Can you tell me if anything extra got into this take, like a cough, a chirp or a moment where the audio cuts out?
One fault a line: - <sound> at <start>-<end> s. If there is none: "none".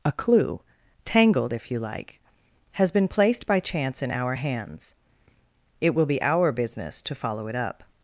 none